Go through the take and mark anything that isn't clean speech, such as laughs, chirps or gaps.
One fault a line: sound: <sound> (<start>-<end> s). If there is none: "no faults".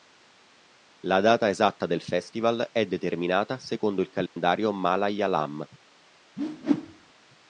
sound: dropout (4.3-4.4 s)
sound: whoosh (6.4-7.1 s)